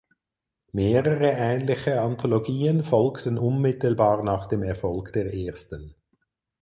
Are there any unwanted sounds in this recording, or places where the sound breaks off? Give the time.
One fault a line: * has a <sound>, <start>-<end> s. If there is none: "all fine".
all fine